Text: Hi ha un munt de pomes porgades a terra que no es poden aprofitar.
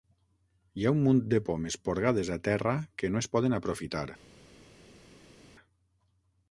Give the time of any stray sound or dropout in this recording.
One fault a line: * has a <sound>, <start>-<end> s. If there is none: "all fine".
all fine